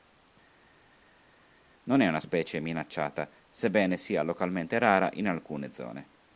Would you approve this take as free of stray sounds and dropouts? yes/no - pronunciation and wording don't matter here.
yes